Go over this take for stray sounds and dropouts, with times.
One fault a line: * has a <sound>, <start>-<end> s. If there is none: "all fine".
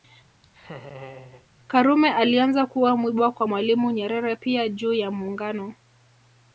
* has a laugh, 0.4-1.5 s